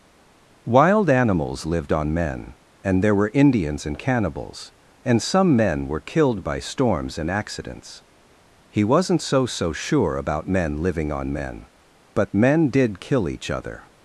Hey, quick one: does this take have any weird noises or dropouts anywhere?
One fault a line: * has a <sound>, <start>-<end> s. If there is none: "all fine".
all fine